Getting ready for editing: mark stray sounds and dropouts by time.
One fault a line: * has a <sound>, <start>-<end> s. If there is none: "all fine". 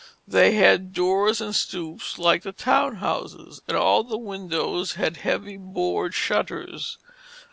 all fine